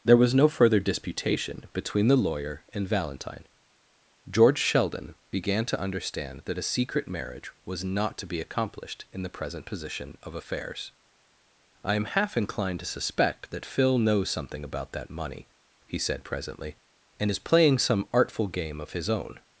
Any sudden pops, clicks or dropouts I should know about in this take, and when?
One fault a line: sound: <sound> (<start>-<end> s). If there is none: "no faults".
no faults